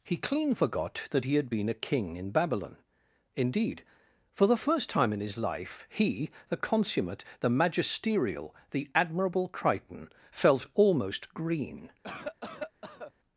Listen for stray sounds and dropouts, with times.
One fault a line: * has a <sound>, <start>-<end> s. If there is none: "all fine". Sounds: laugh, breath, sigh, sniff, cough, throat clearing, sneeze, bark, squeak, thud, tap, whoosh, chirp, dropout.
* has a cough, 12.0-13.1 s